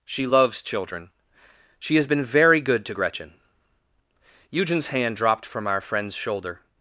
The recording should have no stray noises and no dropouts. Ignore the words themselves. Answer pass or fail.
pass